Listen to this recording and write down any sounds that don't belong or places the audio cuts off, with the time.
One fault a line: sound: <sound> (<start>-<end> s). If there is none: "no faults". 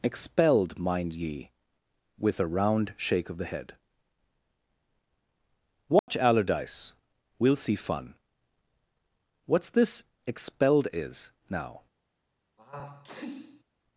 sound: dropout (6.0-6.1 s)
sound: sneeze (12.6-13.6 s)